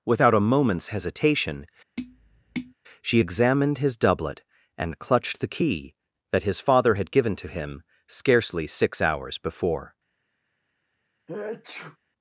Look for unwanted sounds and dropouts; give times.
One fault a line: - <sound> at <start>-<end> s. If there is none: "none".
- tap at 2.0-2.7 s
- sneeze at 11.3-12.0 s